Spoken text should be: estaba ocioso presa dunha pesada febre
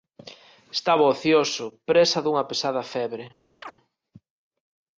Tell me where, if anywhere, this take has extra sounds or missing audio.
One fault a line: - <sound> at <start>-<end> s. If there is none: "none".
- chirp at 3.6-3.7 s